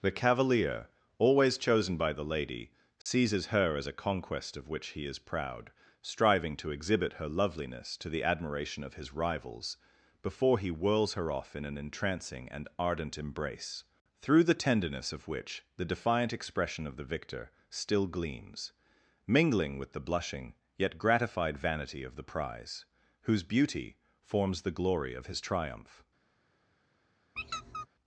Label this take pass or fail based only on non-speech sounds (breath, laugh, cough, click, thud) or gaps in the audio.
fail